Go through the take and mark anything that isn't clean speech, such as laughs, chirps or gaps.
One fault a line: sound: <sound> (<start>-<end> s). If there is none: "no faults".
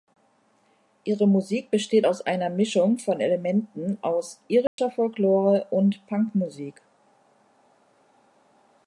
sound: dropout (4.7-4.8 s)